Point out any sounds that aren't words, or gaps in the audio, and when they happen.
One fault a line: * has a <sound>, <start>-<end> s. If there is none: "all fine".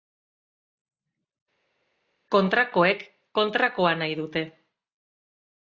all fine